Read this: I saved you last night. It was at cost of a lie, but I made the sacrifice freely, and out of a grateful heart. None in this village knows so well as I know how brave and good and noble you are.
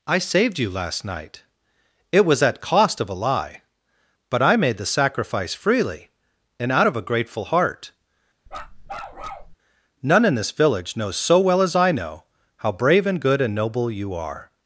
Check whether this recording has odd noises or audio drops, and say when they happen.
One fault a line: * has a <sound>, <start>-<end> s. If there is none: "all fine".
* has a bark, 8.5-9.6 s